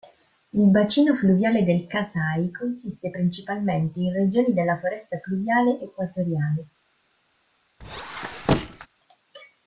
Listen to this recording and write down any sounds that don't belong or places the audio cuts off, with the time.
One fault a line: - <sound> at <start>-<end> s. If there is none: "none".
- squeak at 7.8-8.9 s